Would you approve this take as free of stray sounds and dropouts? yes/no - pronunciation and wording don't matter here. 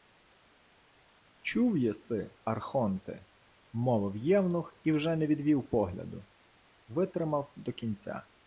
yes